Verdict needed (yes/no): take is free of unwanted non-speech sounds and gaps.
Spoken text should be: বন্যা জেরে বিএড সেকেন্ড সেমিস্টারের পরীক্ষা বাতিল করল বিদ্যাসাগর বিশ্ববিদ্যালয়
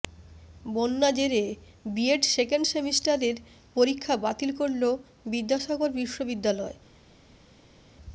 yes